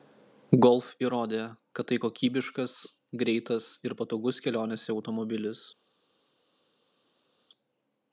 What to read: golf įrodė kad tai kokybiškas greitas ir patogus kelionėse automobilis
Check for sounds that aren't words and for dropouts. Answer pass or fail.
pass